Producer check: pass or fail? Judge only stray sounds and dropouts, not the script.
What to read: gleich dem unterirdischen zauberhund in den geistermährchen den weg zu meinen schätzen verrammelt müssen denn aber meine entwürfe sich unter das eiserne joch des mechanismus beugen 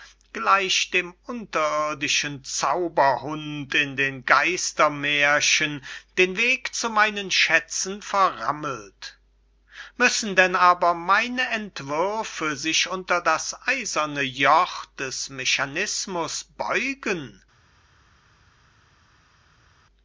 pass